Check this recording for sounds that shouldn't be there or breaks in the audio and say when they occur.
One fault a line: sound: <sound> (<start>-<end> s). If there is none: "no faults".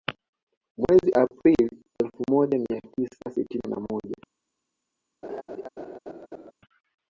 sound: laugh (5.2-6.5 s)